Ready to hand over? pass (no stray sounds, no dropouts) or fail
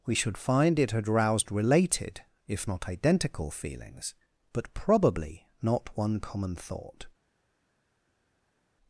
pass